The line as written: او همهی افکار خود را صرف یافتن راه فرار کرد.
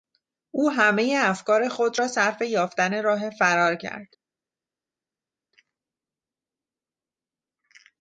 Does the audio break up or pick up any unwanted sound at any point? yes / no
no